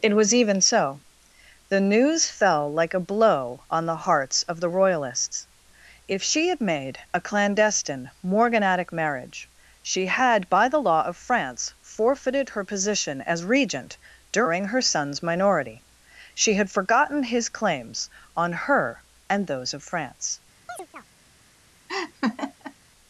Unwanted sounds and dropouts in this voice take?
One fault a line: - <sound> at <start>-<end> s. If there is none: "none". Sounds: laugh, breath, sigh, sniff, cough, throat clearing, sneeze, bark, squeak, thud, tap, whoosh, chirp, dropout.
- chirp at 20.7-21.1 s
- laugh at 21.9-22.7 s